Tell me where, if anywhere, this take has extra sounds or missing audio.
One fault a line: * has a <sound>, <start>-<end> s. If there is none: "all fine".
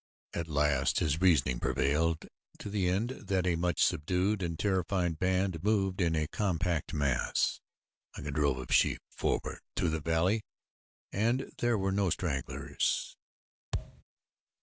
* has a thud, 13.7-14.0 s